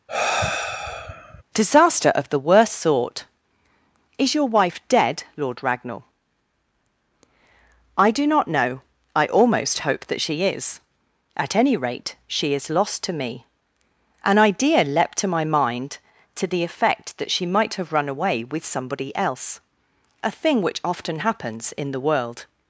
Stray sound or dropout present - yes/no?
yes